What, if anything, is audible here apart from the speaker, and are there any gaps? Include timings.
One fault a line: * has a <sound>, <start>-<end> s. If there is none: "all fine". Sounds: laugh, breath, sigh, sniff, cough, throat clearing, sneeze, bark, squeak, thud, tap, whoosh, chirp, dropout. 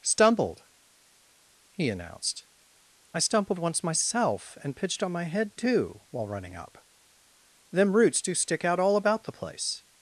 all fine